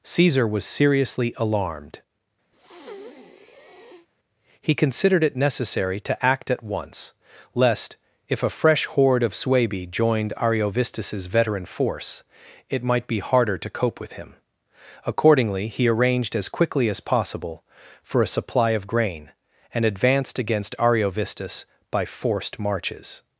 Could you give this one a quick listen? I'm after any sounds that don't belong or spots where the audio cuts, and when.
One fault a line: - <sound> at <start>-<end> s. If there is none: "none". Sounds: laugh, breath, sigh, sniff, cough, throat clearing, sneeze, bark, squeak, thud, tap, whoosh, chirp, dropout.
- breath at 2.5-4.1 s